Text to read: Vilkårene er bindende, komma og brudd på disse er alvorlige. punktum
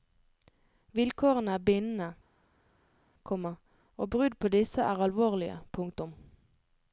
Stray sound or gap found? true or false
false